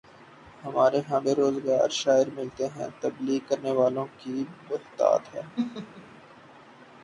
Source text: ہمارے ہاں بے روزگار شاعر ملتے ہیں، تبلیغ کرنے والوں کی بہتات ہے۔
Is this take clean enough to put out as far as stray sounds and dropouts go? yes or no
no